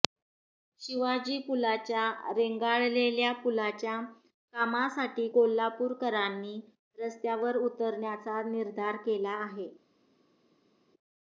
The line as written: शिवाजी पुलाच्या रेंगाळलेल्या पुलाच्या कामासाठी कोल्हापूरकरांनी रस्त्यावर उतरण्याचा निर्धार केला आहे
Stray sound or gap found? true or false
false